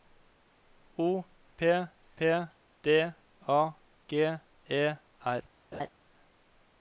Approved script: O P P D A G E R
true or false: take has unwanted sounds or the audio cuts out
true